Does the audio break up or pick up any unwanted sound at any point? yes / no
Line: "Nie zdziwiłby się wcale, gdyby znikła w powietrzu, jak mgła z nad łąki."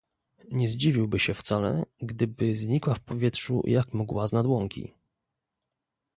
no